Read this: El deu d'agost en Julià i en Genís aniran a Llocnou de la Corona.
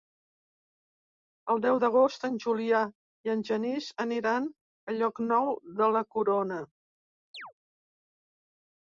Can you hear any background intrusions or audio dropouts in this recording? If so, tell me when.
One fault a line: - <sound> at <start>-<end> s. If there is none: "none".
- chirp at 7.3-7.5 s